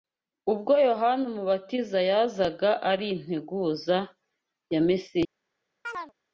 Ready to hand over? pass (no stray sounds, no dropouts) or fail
fail